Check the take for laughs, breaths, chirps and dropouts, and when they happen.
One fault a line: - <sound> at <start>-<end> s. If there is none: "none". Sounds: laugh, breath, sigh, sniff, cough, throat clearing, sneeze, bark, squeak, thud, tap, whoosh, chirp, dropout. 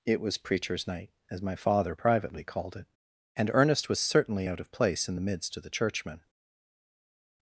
none